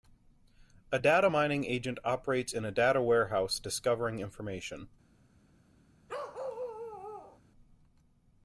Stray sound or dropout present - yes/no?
yes